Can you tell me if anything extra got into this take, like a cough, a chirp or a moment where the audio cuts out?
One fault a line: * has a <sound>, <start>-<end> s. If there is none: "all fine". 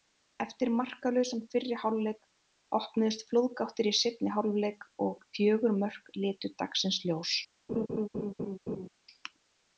* has a laugh, 7.7-8.9 s